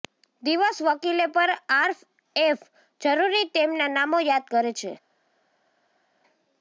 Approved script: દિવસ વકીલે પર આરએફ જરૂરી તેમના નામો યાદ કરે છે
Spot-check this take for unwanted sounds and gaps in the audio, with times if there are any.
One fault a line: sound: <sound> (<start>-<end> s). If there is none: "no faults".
no faults